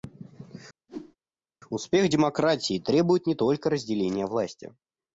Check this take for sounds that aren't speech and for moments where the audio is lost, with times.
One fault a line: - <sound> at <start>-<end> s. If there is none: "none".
- whoosh at 0.9-1.2 s